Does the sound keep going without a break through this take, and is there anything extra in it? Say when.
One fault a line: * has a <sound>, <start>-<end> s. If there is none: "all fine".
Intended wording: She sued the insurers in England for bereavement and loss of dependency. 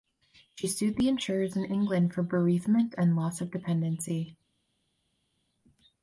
all fine